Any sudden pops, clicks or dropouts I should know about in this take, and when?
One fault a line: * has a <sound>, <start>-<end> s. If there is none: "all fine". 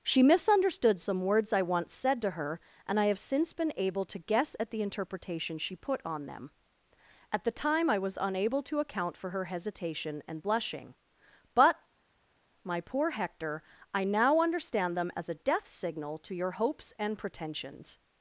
all fine